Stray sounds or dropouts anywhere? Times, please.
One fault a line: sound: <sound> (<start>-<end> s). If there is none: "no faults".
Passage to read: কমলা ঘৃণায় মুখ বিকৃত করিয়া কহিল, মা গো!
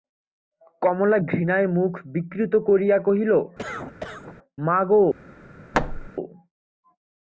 sound: cough (3.6-4.4 s)
sound: thud (5.7-6.1 s)